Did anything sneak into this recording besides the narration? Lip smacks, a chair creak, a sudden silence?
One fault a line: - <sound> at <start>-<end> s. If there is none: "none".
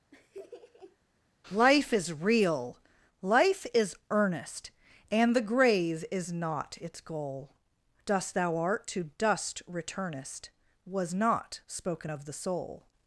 - laugh at 0.1-1.0 s